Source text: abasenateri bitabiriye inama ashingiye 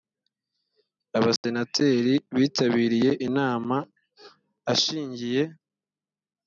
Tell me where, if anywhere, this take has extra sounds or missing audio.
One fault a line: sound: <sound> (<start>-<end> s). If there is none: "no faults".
sound: dropout (1.4-1.4 s)